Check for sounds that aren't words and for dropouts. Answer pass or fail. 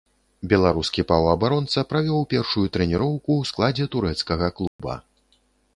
fail